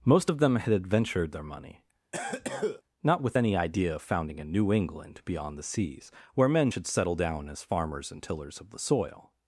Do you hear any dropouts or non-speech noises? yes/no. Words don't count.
yes